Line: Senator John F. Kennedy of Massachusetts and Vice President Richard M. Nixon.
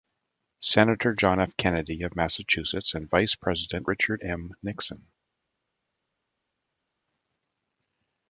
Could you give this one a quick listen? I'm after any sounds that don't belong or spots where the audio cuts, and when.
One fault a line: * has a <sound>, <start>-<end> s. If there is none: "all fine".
all fine